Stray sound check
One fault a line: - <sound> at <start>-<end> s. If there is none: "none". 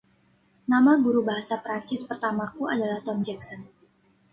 none